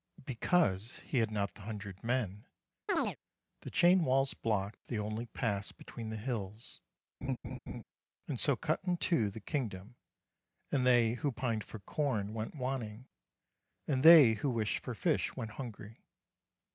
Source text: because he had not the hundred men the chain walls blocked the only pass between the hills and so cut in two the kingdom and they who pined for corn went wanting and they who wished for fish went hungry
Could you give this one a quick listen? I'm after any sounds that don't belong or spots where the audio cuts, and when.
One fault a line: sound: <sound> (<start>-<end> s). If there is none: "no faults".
sound: chirp (2.9-3.2 s)
sound: laugh (7.2-7.8 s)